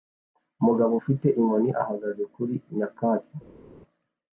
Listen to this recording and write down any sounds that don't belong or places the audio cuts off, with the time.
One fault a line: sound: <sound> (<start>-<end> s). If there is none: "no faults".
no faults